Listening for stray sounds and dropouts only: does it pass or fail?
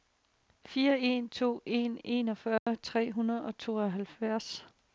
fail